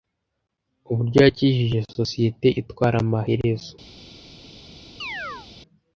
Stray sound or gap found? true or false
true